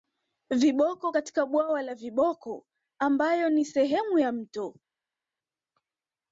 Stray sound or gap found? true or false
false